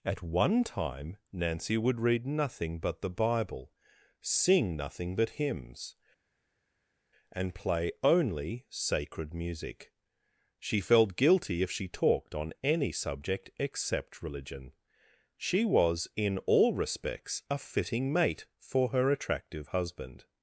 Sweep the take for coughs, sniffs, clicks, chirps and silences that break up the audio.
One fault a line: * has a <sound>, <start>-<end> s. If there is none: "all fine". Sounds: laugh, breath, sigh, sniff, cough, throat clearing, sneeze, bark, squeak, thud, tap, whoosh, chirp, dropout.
all fine